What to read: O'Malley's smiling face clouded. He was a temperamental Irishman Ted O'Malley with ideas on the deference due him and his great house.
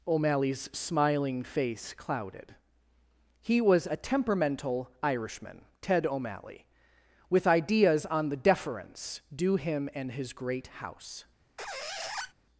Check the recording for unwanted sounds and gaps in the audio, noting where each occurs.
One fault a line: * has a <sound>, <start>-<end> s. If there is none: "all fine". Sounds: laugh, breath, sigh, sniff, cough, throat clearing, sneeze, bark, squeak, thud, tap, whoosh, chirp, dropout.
* has a squeak, 11.6-12.3 s